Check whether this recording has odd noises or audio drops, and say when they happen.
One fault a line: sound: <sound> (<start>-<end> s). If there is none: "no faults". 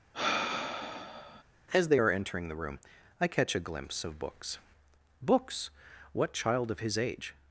sound: sigh (0.1-1.4 s)